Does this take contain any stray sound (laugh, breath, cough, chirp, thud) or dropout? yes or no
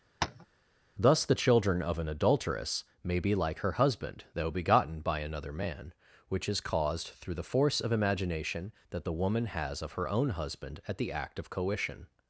yes